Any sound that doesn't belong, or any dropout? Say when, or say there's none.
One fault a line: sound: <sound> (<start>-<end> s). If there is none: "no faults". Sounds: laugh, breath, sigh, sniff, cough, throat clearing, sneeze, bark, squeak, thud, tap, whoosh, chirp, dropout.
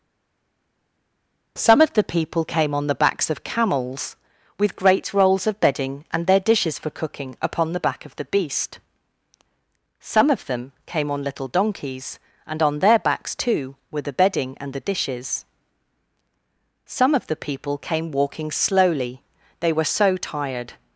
no faults